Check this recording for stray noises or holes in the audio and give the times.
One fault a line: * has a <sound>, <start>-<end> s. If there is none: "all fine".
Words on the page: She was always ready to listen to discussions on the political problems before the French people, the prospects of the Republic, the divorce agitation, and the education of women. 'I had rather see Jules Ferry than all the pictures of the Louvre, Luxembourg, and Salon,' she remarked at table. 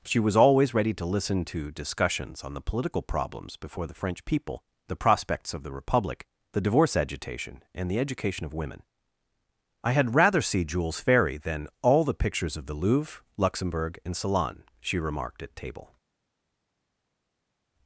all fine